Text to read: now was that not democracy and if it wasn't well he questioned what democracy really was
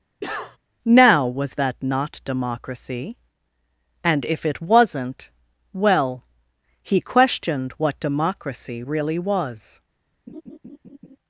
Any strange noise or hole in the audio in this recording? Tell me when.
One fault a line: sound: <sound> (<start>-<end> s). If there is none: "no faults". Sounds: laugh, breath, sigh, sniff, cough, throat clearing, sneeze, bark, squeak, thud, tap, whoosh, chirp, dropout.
sound: cough (0.2-0.6 s)
sound: laugh (10.3-11.2 s)